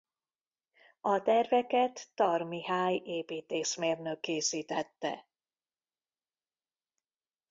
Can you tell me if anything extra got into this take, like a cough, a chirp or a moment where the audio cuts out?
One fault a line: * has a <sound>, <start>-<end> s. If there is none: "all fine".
all fine